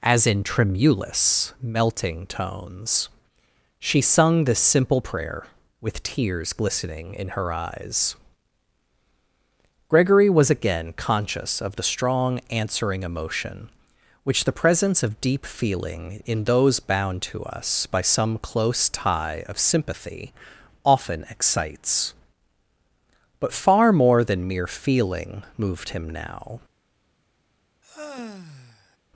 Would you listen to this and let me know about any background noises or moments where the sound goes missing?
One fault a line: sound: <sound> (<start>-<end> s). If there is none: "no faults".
sound: sigh (27.8-29.0 s)